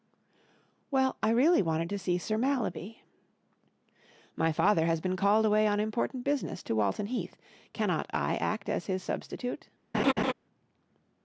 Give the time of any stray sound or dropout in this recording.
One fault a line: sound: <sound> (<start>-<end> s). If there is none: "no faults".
sound: laugh (9.9-10.3 s)